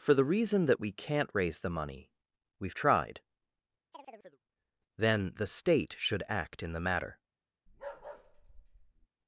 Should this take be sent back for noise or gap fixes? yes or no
yes